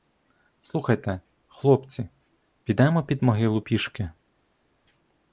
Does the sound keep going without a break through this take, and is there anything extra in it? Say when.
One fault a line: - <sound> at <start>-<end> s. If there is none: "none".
none